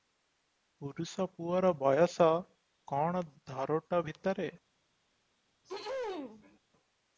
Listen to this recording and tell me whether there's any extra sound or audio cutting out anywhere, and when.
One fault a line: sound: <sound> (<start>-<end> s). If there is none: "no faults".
sound: throat clearing (5.6-6.6 s)